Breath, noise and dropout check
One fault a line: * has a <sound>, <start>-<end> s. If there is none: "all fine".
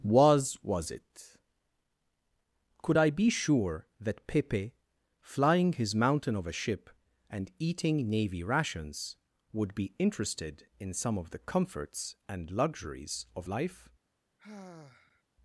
* has a sigh, 14.4-15.2 s